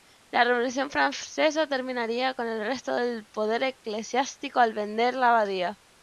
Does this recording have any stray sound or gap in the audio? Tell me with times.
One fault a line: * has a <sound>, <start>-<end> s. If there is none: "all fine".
all fine